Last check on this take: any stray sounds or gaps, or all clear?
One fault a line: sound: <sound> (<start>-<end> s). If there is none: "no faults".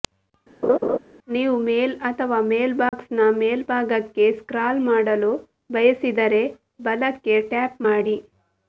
sound: laugh (0.6-1.0 s)
sound: dropout (2.9-2.9 s)